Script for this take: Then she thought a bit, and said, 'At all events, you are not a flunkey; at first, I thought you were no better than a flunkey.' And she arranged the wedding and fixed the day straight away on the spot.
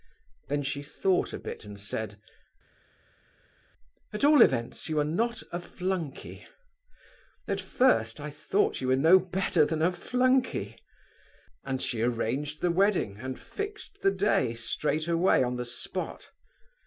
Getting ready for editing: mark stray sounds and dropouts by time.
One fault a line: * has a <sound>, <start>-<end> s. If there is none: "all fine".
all fine